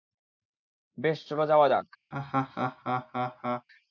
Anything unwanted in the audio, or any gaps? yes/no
yes